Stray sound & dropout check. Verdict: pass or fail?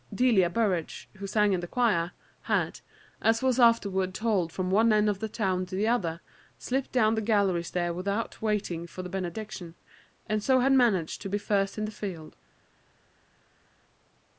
pass